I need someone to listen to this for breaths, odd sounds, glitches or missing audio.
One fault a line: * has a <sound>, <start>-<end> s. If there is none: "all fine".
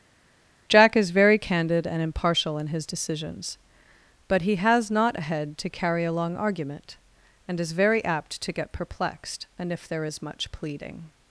all fine